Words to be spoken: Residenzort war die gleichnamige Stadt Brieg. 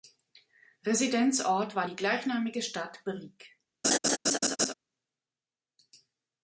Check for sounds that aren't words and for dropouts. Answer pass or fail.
fail